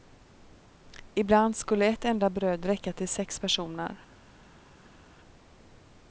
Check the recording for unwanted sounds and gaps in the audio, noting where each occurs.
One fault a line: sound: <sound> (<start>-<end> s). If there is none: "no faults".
no faults